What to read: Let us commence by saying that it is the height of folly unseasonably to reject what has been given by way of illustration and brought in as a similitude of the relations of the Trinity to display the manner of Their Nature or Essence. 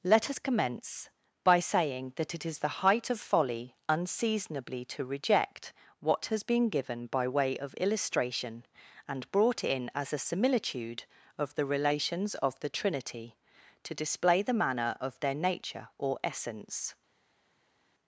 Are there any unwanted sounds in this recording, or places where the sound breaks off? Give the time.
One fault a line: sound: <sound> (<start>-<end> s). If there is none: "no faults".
no faults